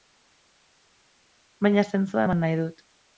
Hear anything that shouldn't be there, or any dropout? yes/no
no